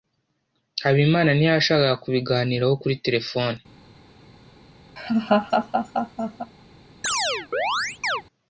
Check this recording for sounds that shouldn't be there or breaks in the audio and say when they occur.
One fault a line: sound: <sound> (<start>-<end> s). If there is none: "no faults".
sound: laugh (5.0-6.5 s)
sound: chirp (7.0-8.2 s)